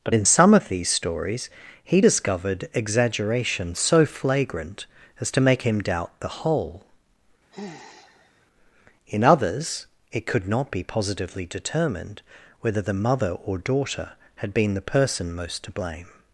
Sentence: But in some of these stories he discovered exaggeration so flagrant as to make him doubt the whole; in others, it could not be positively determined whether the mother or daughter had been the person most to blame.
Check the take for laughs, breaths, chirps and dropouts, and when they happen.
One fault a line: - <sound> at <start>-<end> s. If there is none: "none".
- sigh at 7.5-8.5 s